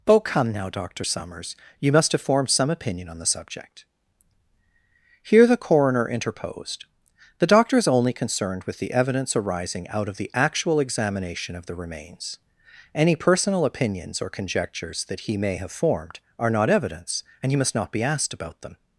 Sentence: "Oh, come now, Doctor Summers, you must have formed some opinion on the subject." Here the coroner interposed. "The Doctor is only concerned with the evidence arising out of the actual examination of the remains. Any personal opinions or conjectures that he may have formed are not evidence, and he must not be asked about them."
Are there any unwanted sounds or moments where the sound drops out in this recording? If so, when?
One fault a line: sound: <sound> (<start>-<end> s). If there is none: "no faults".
no faults